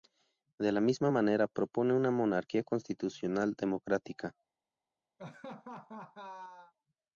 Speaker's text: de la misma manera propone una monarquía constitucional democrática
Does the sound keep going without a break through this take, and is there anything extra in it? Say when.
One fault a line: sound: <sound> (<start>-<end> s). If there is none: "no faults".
sound: laugh (5.2-6.7 s)